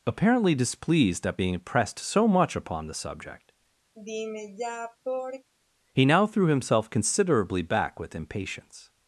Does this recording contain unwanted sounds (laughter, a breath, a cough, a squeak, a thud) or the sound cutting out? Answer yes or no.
yes